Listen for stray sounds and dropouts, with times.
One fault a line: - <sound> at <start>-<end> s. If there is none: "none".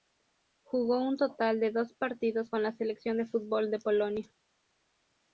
none